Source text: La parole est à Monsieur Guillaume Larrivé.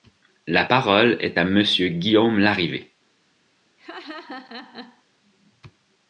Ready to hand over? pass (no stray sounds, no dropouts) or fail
fail